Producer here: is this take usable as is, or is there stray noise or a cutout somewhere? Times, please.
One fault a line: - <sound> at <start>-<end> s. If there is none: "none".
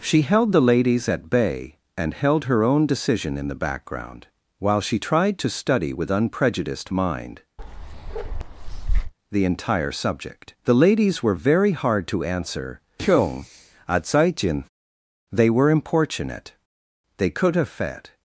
- bark at 7.6-9.1 s